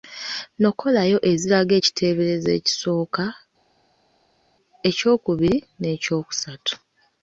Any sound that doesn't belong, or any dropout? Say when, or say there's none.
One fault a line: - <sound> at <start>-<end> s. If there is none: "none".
none